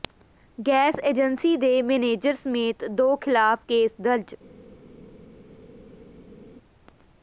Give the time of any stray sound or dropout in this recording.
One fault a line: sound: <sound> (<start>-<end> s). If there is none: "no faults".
no faults